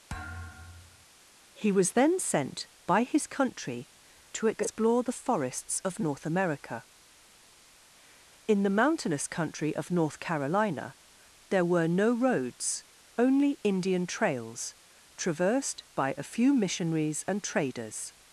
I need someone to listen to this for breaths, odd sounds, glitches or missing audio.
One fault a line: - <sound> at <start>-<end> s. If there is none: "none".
- thud at 0.1-1.1 s